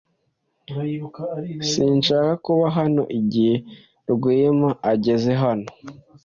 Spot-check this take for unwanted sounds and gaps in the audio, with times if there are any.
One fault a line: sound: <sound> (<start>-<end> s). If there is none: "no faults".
no faults